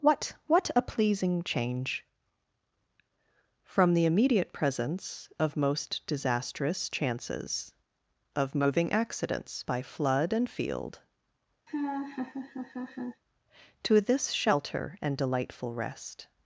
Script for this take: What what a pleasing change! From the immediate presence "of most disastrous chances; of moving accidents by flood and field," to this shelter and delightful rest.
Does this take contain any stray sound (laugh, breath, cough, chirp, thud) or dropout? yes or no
yes